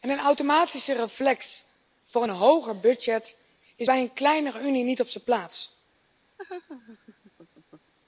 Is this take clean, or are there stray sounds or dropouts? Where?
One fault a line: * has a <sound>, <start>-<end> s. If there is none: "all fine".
* has a laugh, 6.4-7.9 s